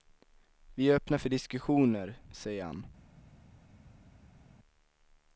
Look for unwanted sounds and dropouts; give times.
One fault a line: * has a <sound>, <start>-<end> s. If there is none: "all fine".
all fine